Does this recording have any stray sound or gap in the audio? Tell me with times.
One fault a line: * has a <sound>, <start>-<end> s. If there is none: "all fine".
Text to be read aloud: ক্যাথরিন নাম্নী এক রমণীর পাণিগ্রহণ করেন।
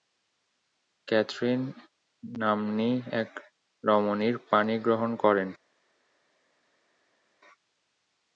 all fine